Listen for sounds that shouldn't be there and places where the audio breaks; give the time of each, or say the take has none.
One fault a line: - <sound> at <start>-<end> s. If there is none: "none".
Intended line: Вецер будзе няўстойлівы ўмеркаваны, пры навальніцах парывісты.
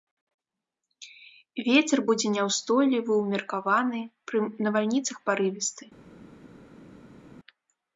none